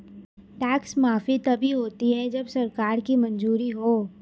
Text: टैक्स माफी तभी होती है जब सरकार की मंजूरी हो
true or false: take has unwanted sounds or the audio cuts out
false